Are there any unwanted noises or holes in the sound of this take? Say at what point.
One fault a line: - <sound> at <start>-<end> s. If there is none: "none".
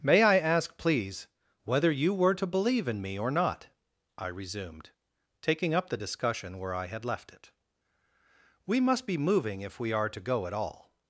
none